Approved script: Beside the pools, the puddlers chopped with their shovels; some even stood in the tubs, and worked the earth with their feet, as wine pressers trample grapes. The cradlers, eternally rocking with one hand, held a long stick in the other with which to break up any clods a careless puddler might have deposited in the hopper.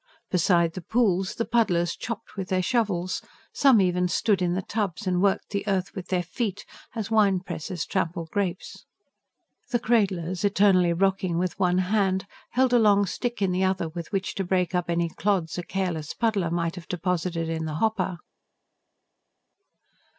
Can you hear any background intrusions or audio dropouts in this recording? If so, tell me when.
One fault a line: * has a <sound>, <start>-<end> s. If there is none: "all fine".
all fine